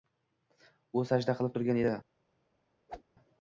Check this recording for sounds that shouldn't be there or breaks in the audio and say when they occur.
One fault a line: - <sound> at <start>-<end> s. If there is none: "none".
- whoosh at 2.9-3.0 s